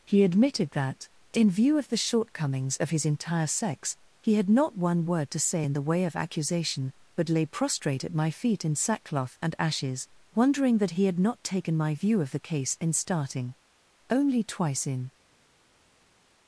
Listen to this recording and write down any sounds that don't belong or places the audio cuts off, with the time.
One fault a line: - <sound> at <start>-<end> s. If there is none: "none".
none